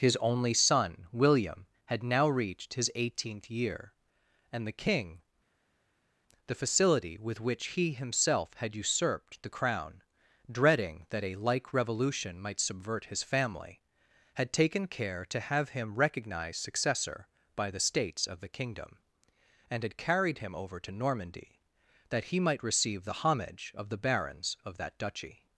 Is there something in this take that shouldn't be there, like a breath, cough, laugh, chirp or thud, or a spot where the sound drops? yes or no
no